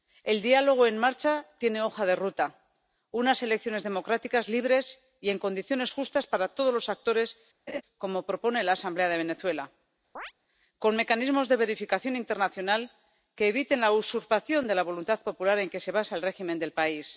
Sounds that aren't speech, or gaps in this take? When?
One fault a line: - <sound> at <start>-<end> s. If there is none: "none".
- laugh at 7.7-7.8 s
- chirp at 10.2-10.3 s